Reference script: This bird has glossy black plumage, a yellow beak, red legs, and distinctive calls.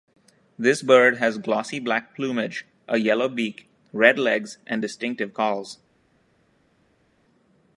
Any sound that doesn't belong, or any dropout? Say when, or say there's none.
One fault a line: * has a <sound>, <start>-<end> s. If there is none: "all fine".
all fine